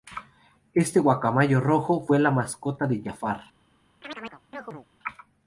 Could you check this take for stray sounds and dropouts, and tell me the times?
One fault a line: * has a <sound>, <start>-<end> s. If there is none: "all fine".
* has a chirp, 4.0-4.9 s